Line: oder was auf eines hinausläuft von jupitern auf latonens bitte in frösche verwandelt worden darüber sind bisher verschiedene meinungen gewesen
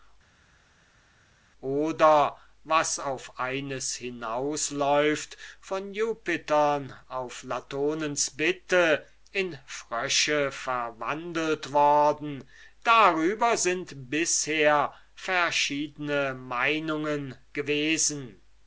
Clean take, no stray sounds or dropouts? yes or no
yes